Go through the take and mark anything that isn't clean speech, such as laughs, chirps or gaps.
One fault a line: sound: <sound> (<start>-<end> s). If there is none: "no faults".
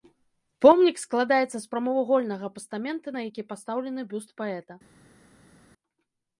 no faults